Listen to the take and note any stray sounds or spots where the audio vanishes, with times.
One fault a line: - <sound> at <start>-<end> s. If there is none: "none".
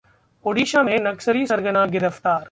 none